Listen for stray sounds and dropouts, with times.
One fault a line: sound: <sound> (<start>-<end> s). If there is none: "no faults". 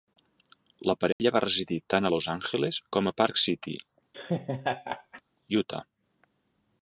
sound: dropout (1.1-1.2 s)
sound: laugh (4.1-5.2 s)